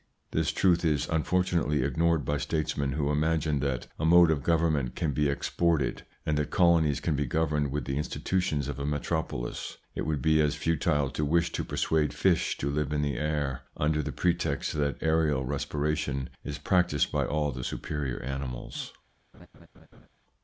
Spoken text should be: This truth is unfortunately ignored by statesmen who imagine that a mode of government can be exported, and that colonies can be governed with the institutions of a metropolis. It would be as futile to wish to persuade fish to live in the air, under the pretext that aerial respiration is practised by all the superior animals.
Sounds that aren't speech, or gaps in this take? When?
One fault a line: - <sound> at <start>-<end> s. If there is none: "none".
- laugh at 19.3-20.1 s